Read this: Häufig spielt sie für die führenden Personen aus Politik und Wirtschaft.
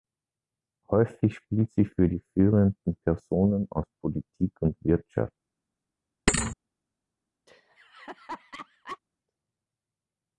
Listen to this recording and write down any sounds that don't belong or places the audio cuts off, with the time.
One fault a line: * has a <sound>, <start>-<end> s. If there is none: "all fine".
* has a thud, 6.3-6.6 s
* has a laugh, 7.5-9.0 s